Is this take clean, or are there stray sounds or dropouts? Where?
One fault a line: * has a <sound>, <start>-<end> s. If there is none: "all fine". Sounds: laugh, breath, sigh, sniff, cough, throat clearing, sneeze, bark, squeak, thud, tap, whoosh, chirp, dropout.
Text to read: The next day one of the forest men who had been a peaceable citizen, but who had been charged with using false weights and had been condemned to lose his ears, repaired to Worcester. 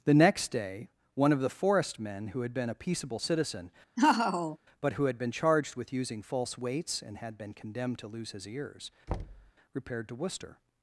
* has a laugh, 4.0-4.6 s
* has a thud, 9.1-9.5 s